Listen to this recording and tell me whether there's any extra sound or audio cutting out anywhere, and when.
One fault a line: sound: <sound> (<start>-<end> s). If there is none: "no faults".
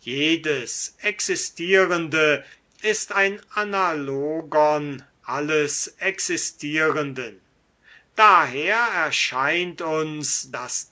no faults